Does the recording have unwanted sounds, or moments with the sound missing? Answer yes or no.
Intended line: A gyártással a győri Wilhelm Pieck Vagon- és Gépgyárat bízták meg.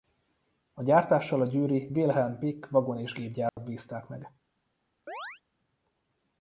yes